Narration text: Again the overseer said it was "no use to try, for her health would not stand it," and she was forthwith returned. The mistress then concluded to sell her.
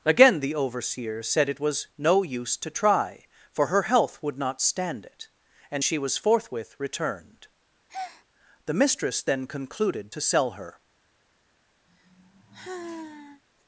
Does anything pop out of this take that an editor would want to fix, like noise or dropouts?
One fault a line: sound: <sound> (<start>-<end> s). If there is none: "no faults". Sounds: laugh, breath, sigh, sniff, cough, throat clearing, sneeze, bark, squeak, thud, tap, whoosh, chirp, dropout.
sound: breath (7.9-8.3 s)
sound: sigh (11.9-13.4 s)